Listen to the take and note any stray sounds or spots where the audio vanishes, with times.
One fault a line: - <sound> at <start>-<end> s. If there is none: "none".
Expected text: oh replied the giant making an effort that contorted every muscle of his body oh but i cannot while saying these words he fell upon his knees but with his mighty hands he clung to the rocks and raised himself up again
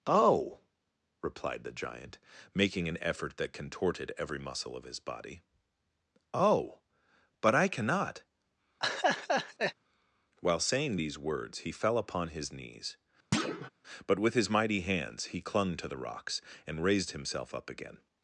- laugh at 8.8-9.7 s
- thud at 13.3-13.7 s